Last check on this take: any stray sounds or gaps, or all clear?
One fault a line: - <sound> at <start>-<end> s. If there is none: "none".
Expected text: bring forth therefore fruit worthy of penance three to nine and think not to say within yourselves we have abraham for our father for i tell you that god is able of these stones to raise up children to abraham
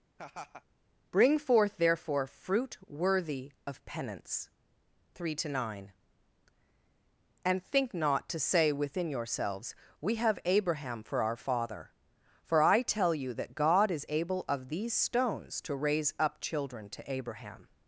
- laugh at 0.2-0.6 s